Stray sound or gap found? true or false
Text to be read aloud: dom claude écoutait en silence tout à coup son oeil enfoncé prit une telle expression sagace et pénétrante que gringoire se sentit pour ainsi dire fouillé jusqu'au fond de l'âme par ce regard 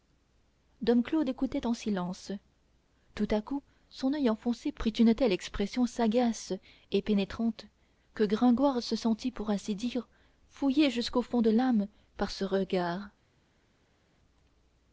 false